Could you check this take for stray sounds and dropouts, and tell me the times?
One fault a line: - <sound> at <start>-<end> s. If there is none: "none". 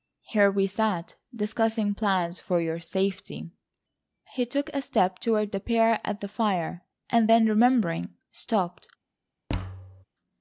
- thud at 9.5-10.0 s